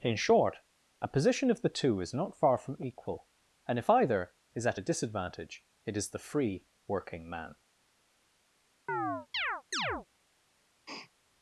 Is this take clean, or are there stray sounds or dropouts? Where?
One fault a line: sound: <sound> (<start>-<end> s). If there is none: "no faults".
sound: chirp (8.9-10.1 s)
sound: sniff (10.9-11.1 s)